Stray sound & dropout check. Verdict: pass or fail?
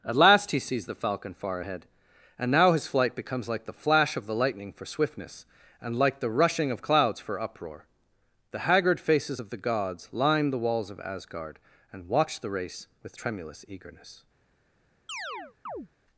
fail